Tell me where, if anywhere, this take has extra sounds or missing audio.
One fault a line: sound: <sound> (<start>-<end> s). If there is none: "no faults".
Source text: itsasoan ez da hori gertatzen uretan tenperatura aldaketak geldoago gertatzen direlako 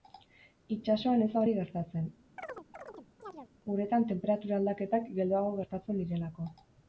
sound: chirp (2.4-3.5 s)